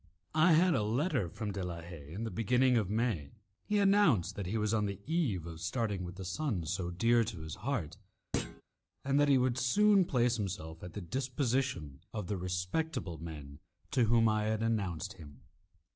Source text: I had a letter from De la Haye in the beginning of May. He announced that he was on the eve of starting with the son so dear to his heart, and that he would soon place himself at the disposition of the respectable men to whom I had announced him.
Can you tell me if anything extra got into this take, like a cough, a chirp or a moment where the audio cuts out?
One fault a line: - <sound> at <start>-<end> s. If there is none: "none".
- thud at 8.3-8.6 s